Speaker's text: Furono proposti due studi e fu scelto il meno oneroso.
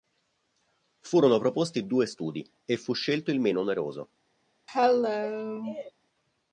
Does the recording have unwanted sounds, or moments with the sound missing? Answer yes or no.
yes